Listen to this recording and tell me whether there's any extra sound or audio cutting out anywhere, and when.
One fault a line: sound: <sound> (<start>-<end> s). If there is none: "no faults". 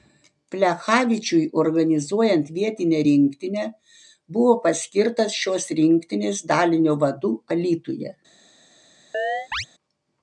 sound: chirp (9.1-9.7 s)